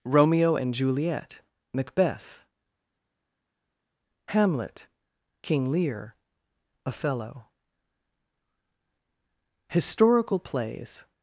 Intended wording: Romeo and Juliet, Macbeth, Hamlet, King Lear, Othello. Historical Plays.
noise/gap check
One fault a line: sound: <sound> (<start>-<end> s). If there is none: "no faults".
no faults